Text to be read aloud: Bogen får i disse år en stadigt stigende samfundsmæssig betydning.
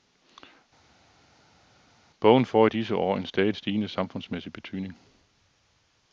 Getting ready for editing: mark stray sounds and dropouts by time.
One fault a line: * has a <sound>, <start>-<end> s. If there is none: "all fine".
all fine